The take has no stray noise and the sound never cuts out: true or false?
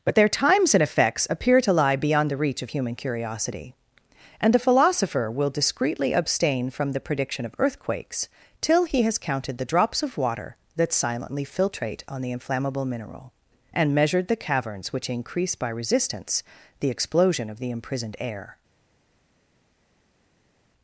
true